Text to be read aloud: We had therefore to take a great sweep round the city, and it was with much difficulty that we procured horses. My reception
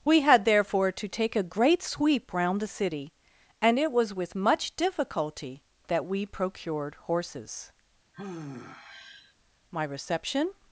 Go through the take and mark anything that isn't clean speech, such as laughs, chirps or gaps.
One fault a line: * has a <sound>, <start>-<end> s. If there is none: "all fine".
* has a sigh, 8.1-9.3 s